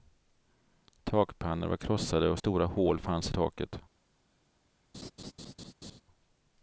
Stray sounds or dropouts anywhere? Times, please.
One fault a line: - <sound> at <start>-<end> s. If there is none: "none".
- laugh at 4.9-6.0 s